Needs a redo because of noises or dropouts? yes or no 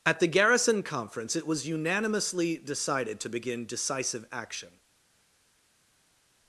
no